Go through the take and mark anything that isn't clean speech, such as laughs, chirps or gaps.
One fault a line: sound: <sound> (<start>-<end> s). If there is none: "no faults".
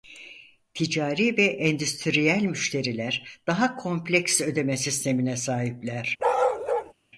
sound: bark (6.2-6.9 s)